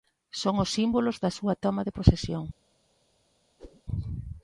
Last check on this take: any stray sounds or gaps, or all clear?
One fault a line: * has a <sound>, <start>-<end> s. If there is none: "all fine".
* has a whoosh, 3.6-3.8 s